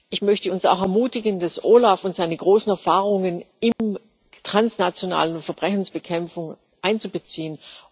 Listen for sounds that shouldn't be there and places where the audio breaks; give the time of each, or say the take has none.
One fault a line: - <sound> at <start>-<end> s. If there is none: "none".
- dropout at 3.7-3.8 s